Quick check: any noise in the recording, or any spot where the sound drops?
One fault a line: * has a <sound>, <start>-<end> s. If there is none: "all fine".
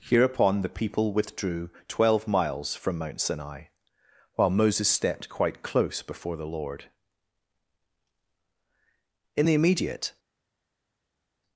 all fine